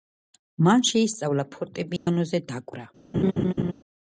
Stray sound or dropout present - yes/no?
yes